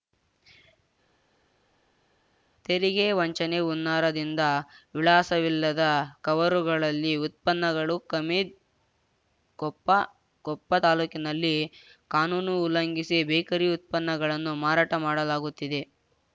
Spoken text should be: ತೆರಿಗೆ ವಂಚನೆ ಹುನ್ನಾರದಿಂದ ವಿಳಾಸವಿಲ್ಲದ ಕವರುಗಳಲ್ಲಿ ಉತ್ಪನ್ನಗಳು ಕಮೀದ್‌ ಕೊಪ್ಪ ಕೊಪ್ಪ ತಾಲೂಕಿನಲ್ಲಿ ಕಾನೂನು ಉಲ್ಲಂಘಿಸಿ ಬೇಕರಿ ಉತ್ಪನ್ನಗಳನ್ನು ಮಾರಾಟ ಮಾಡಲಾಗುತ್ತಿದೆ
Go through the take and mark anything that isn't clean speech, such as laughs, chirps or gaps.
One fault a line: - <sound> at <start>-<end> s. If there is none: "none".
none